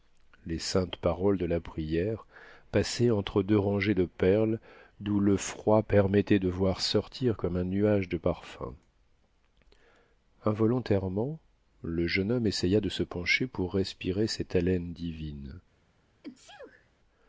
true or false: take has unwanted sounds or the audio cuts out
true